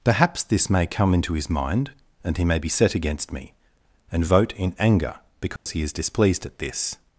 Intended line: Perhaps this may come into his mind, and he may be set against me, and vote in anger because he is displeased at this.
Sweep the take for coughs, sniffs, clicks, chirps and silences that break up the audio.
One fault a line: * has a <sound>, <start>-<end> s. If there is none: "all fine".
* has a dropout, 5.6-5.7 s